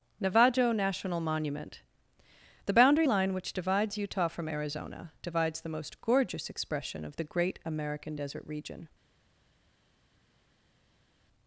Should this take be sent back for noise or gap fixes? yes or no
no